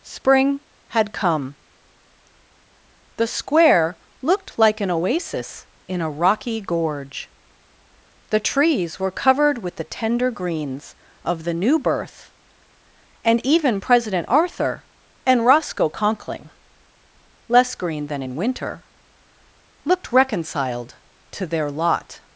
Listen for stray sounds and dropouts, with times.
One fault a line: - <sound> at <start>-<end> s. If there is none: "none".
none